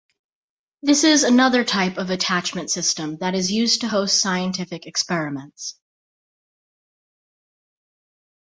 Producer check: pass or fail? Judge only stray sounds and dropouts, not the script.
pass